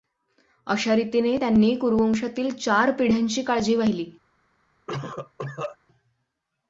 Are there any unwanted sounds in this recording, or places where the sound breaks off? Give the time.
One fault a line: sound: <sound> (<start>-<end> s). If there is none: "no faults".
sound: cough (4.9-5.8 s)